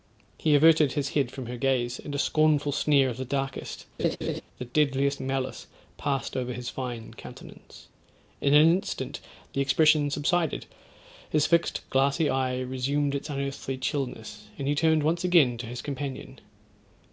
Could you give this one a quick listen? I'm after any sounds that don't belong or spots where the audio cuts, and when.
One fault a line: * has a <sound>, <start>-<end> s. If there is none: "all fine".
* has a laugh, 4.0-4.4 s